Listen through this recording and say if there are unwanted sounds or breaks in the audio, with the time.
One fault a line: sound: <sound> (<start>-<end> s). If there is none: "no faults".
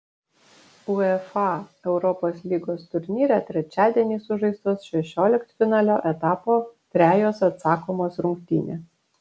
no faults